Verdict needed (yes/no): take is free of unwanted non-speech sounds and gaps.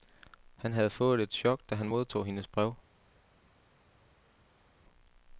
yes